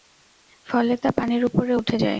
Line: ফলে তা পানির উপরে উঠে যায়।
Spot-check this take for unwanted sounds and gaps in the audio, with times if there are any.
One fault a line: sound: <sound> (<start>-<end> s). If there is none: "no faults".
no faults